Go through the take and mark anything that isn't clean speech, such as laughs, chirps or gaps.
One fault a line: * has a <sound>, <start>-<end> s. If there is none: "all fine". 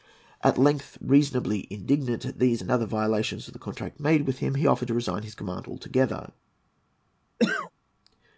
* has a cough, 7.4-7.7 s